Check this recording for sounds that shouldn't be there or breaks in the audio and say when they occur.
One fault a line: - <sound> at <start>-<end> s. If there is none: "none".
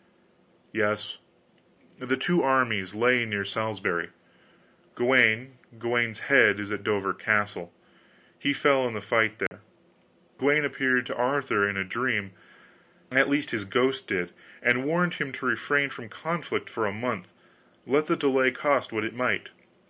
- dropout at 9.5-9.5 s